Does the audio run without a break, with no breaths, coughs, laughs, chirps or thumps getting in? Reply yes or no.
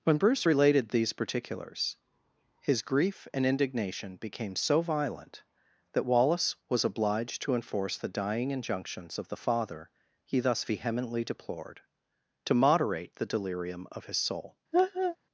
no